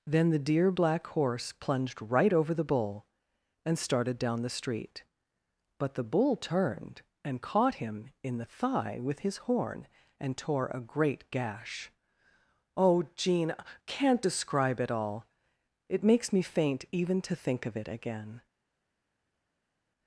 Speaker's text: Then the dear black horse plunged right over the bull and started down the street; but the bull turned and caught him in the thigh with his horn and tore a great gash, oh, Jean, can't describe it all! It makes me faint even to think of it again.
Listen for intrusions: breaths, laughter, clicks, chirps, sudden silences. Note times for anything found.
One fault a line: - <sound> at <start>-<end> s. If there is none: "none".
none